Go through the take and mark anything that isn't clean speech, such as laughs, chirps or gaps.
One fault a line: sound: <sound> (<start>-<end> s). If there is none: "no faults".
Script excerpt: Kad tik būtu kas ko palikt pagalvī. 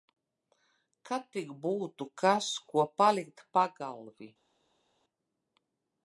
no faults